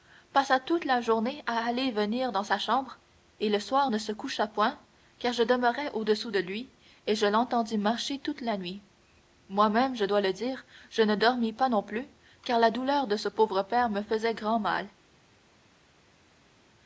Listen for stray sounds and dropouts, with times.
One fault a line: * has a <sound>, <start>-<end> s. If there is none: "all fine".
all fine